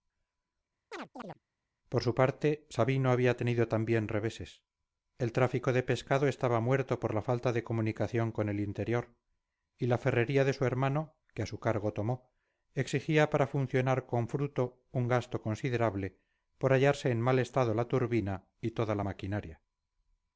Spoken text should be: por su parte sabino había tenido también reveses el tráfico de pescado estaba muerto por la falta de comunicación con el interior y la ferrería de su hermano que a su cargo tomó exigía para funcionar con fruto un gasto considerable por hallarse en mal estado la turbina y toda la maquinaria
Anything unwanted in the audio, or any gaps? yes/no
yes